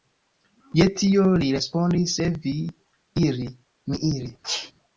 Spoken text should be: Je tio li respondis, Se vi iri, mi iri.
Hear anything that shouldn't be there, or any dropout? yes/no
yes